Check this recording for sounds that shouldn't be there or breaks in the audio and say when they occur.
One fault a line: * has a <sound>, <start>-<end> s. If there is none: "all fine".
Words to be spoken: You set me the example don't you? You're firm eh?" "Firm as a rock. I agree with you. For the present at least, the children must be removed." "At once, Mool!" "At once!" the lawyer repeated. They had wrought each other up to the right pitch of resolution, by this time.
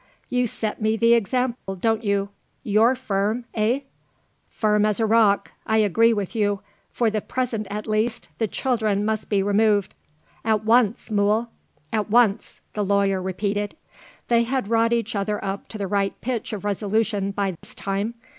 * has a dropout, 1.5-1.7 s
* has a dropout, 17.6-17.6 s